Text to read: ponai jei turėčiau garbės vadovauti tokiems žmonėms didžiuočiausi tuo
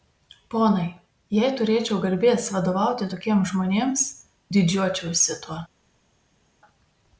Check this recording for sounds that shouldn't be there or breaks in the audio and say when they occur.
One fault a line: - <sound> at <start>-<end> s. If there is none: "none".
none